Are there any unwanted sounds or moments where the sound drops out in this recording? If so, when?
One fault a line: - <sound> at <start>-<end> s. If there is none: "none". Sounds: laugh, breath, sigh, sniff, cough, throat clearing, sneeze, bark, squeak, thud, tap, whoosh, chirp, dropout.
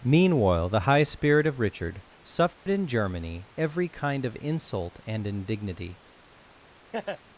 - dropout at 2.5-2.7 s
- laugh at 6.9-7.2 s